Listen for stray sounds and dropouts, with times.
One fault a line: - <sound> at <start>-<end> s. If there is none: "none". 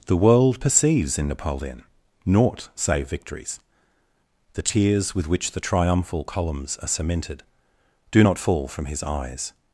none